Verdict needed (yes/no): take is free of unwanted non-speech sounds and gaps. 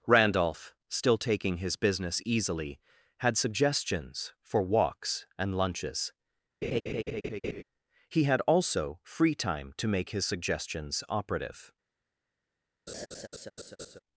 no